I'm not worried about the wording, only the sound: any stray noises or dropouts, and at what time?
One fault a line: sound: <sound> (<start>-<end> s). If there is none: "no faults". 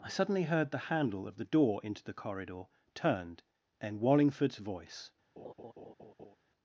sound: laugh (5.4-6.4 s)